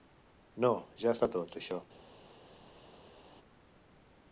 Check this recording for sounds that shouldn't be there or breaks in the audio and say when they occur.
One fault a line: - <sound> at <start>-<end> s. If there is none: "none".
none